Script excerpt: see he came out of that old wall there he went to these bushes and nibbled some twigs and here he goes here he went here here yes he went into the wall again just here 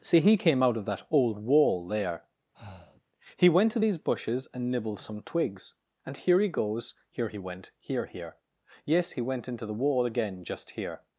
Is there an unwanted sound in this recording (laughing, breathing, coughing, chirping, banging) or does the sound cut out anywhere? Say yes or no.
yes